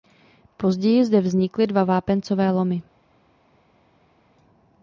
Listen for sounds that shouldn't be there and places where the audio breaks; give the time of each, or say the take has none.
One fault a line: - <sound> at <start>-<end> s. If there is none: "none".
none